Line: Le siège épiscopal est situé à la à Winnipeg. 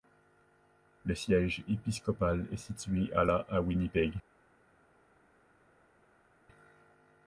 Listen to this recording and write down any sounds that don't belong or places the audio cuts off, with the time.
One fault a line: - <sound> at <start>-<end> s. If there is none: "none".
none